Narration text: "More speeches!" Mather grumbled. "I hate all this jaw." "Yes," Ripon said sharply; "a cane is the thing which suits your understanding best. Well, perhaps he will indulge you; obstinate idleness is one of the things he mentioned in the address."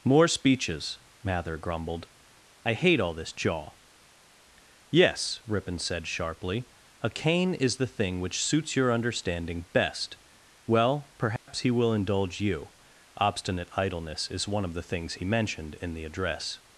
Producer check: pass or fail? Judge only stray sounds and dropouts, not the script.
fail